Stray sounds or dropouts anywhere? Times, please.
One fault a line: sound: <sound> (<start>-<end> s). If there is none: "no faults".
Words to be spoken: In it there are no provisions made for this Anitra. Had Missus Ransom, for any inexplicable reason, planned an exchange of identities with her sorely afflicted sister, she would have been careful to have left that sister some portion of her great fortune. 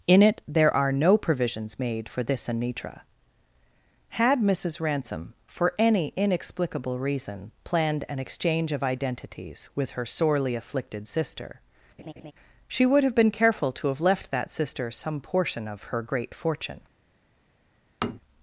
sound: laugh (12.0-12.3 s)
sound: tap (18.0-18.2 s)